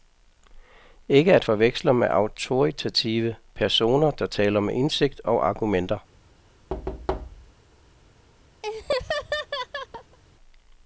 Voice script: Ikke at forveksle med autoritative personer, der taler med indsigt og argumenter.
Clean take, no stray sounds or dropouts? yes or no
no